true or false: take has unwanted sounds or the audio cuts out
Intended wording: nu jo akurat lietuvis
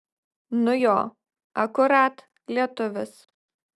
false